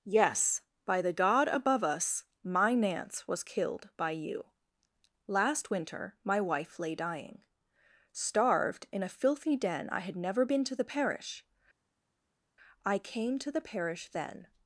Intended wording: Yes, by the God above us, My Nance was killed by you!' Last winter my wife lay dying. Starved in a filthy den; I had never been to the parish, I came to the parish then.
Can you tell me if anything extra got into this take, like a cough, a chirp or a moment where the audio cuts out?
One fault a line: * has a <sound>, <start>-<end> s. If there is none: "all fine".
all fine